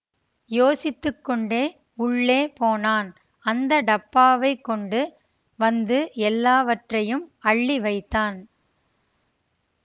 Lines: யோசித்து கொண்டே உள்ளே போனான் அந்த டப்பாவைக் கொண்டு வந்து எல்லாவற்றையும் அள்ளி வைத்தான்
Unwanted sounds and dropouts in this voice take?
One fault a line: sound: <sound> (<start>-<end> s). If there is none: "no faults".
no faults